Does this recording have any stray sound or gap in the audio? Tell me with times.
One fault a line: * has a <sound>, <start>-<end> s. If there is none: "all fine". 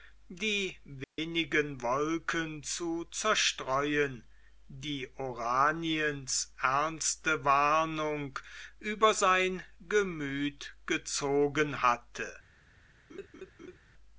* has a dropout, 1.0-1.2 s
* has a laugh, 13.1-13.8 s